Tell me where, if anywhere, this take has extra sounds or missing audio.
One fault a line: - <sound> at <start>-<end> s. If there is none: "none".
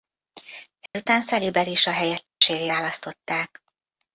- dropout at 0.9-0.9 s
- dropout at 2.3-2.4 s